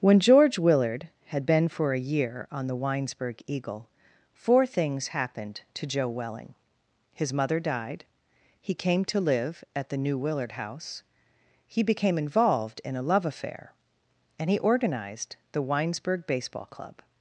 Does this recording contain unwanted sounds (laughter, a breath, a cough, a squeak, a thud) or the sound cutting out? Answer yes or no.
no